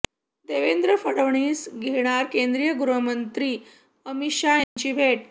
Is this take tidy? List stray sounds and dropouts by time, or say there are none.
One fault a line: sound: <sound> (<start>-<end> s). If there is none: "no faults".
sound: dropout (4.6-4.8 s)